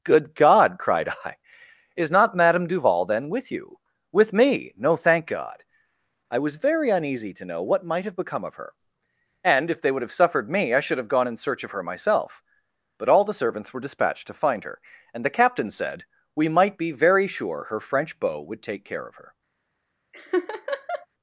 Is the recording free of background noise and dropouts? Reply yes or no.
no